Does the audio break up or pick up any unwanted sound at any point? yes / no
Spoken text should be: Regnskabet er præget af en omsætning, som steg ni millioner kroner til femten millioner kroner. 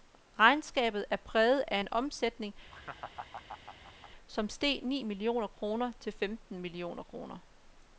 yes